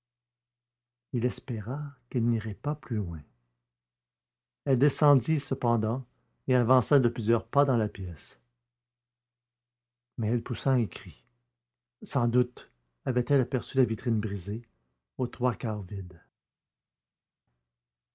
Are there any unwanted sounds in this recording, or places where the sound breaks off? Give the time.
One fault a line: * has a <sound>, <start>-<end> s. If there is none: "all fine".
all fine